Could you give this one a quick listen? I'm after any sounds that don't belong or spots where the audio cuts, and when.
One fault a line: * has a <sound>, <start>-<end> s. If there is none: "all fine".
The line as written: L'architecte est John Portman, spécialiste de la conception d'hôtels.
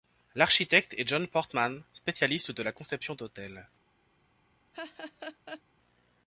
* has a laugh, 4.7-5.6 s